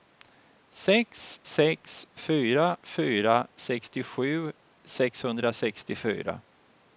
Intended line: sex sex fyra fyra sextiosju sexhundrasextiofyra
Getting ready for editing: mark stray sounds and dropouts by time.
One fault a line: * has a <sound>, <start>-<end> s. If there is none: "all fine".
all fine